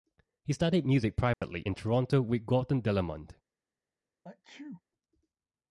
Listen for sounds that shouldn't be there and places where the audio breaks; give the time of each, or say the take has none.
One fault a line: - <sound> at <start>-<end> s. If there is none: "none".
- dropout at 1.3-1.4 s
- sneeze at 4.2-4.8 s